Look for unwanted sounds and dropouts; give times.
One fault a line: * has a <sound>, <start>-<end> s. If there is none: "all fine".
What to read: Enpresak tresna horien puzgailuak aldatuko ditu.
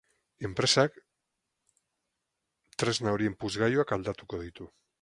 all fine